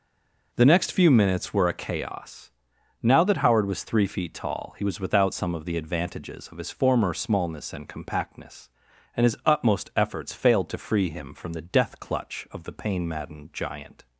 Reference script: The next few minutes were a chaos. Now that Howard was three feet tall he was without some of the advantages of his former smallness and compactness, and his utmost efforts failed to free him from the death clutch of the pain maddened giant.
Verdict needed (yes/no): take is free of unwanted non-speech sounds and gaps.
yes